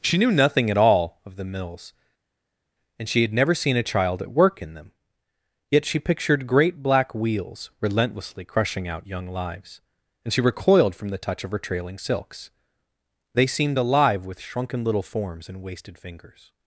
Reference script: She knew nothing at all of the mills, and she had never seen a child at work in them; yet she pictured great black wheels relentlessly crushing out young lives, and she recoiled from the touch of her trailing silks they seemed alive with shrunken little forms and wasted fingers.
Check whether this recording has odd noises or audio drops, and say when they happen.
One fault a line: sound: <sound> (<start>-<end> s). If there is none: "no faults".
no faults